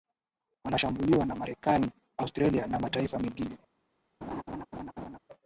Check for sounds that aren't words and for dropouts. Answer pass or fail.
fail